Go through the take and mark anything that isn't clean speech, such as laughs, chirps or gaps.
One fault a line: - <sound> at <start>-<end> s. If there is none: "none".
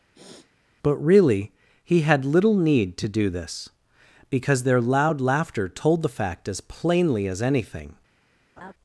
- sniff at 0.1-0.5 s
- laugh at 8.6-8.7 s